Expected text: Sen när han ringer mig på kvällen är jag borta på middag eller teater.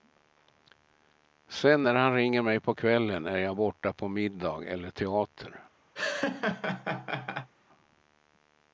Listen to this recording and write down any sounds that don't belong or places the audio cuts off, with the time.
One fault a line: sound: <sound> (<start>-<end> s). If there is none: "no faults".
sound: laugh (6.0-7.5 s)